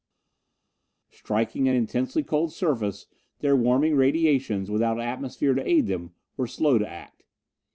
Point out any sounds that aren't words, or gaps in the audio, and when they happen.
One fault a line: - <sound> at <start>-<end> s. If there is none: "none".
none